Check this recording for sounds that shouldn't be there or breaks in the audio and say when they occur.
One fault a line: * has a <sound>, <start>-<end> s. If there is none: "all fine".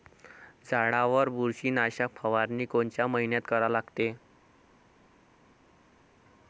all fine